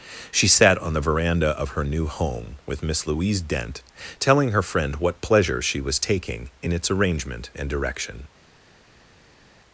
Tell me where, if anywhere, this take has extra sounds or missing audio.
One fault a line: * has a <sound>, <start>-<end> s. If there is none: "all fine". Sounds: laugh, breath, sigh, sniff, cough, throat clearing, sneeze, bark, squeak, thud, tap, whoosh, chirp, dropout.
all fine